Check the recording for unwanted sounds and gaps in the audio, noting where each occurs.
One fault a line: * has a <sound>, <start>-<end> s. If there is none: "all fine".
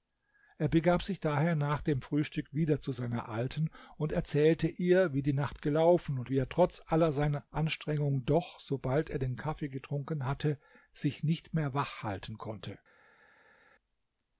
all fine